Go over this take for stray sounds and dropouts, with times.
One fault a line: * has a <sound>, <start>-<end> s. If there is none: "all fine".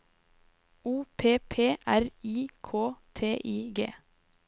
all fine